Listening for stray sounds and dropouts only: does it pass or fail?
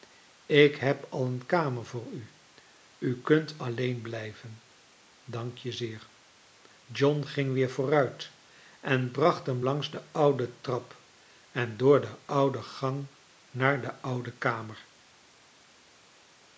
pass